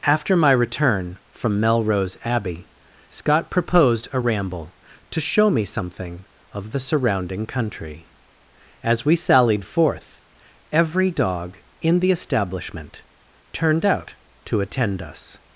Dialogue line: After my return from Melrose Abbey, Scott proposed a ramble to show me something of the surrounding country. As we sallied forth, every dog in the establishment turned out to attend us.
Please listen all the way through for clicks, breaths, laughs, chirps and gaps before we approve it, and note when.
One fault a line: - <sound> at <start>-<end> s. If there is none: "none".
none